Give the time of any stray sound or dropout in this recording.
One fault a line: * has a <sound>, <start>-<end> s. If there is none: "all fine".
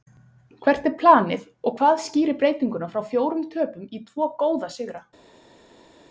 all fine